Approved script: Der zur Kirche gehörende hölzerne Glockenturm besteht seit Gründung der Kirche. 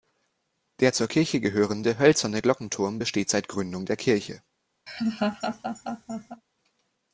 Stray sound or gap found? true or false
true